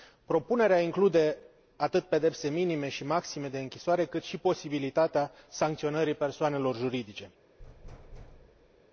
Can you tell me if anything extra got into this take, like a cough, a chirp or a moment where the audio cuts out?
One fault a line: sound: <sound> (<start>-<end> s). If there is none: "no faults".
sound: thud (7.6-8.8 s)